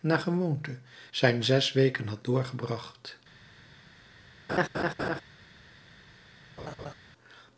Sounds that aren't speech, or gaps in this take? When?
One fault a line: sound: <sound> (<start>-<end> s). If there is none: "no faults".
sound: laugh (4.5-5.2 s)
sound: laugh (6.6-6.9 s)